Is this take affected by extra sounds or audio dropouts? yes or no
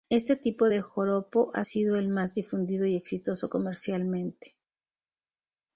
no